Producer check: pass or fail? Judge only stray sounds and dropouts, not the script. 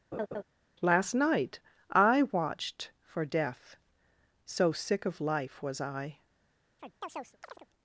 fail